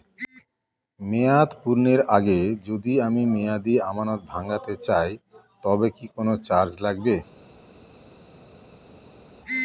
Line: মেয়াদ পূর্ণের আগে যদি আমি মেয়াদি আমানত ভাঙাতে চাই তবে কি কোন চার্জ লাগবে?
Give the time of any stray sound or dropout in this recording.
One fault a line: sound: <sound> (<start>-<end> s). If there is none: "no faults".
no faults